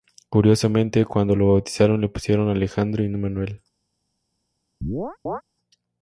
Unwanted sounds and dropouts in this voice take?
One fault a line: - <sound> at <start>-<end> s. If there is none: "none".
- chirp at 4.8-5.4 s